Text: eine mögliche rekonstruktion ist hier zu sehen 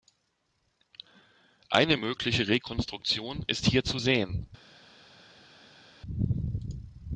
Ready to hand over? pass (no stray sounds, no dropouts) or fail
pass